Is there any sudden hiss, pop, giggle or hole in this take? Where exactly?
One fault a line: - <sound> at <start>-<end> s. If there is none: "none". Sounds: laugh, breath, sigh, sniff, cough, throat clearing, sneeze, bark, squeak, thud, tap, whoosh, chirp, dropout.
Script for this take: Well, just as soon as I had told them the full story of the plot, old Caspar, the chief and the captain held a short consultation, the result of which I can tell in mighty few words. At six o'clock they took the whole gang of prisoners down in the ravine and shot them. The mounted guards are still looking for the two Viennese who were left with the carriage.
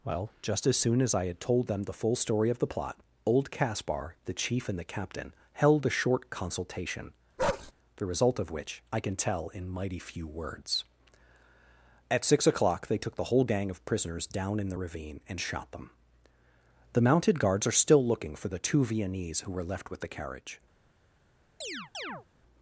- bark at 7.4-7.7 s
- chirp at 21.6-22.3 s